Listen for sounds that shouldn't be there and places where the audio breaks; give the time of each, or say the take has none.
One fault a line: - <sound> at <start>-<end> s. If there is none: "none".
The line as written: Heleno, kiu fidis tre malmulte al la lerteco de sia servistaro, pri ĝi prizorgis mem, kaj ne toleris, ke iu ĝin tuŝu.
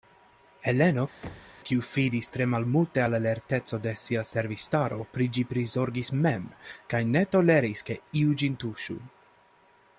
- thud at 1.2-1.6 s